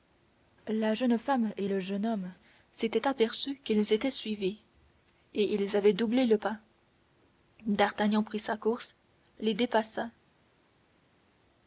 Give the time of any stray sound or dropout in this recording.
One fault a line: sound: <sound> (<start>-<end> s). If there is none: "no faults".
no faults